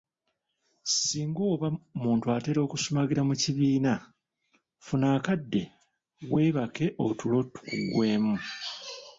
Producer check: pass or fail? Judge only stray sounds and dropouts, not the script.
pass